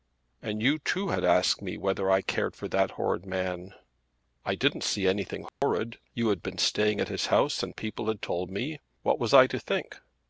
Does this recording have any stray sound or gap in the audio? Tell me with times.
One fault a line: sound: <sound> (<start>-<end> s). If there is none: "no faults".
sound: dropout (5.5-5.6 s)